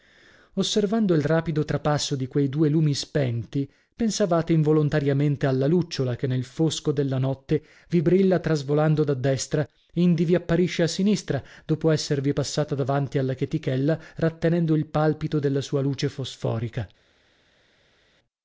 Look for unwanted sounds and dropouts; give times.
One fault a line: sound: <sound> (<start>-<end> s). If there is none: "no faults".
no faults